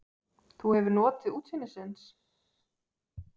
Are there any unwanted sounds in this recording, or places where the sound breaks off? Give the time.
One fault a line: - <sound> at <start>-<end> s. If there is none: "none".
none